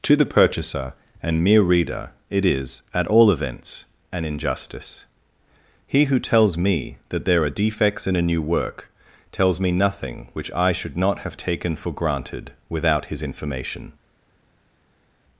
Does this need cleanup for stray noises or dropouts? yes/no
no